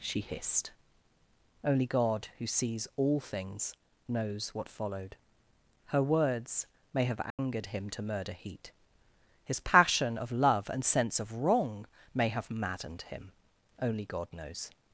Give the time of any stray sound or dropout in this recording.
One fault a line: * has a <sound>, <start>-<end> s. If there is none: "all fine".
* has a dropout, 7.3-7.4 s